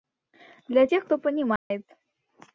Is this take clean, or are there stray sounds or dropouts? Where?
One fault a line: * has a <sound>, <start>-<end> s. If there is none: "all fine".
* has a dropout, 1.6-1.7 s